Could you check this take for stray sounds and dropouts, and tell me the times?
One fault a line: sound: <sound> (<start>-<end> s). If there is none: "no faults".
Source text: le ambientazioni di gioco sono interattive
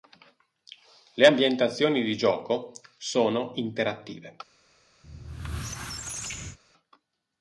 sound: squeak (5.0-6.6 s)